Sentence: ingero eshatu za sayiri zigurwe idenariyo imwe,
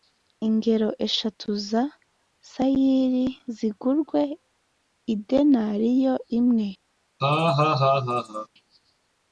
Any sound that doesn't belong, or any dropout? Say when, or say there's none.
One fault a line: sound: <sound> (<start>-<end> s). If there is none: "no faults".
sound: laugh (7.2-8.5 s)